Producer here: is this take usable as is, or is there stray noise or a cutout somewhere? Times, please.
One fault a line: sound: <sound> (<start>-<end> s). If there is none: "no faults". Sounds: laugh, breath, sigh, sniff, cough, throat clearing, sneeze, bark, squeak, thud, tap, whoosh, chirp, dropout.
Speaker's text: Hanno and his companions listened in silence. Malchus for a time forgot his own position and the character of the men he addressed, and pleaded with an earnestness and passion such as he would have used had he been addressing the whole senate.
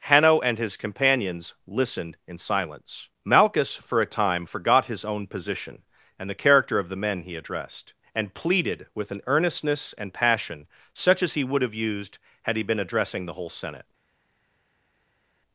no faults